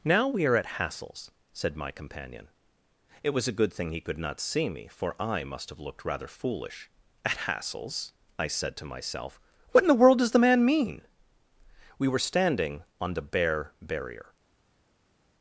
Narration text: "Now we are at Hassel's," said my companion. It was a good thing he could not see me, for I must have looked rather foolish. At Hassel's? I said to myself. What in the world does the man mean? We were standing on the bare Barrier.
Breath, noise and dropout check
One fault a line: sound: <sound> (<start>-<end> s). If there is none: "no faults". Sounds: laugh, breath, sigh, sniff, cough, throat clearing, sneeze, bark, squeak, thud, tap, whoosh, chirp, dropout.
no faults